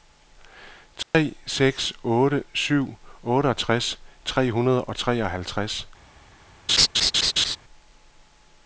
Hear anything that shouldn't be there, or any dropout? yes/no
yes